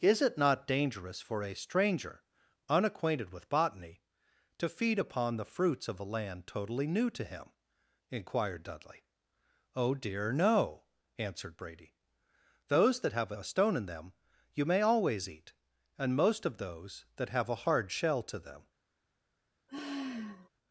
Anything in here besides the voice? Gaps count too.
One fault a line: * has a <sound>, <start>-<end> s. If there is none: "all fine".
* has a sigh, 19.7-20.5 s